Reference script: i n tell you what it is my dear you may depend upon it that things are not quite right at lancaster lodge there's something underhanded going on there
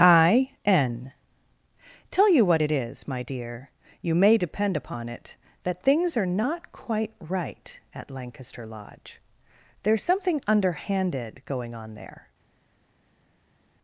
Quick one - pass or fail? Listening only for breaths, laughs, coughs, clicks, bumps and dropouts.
pass